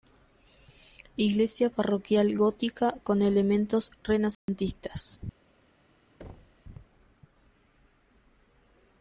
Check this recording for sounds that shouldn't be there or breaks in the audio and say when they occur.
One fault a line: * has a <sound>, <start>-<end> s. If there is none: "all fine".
* has a dropout, 4.3-4.5 s
* has a thud, 6.2-6.6 s